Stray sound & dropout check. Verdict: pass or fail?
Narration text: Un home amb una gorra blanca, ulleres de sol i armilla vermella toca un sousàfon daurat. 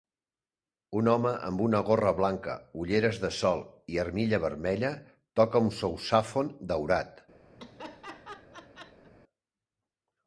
fail